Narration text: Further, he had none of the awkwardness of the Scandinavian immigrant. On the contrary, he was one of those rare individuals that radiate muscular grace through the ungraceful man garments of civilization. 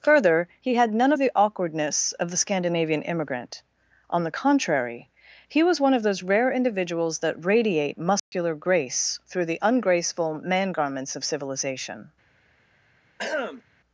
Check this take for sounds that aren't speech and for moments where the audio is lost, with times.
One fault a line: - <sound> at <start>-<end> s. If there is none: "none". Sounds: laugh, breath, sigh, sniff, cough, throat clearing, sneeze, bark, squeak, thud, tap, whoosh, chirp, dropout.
- dropout at 8.2-8.3 s
- throat clearing at 13.2-13.6 s